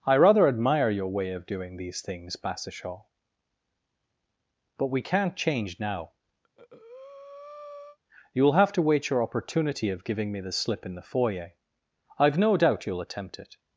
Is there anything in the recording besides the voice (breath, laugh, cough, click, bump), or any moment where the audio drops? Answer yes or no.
yes